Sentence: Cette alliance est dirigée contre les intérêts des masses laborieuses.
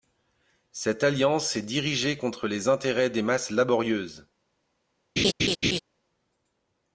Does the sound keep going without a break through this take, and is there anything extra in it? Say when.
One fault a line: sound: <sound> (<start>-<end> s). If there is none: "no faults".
sound: laugh (5.2-5.8 s)